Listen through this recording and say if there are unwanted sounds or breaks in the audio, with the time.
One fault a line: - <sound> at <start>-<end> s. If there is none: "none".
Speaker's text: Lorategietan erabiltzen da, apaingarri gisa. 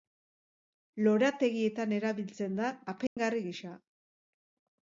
- dropout at 3.1-3.2 s